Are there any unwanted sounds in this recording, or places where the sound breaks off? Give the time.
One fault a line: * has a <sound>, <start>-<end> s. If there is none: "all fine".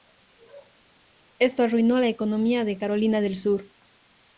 all fine